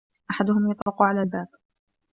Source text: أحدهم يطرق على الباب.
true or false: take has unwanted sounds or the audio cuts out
true